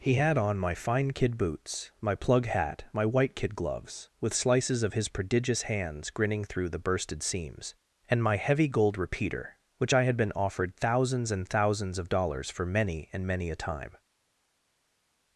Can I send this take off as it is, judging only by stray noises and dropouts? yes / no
yes